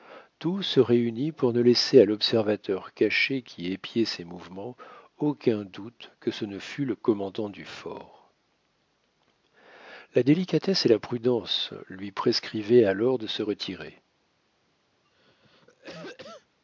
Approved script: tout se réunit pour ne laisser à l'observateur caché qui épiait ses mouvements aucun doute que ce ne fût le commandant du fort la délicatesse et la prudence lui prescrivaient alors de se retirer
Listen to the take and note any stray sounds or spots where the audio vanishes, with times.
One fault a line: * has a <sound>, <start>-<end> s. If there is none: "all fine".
* has a cough, 15.0-16.6 s